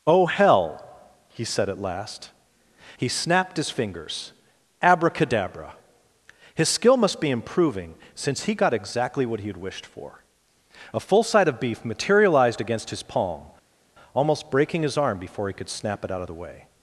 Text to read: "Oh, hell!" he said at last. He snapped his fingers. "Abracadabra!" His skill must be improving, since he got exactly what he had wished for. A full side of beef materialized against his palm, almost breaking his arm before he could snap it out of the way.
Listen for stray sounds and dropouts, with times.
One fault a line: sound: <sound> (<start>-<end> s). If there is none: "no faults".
no faults